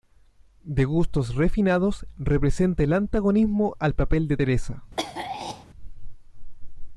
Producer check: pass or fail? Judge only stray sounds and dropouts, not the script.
fail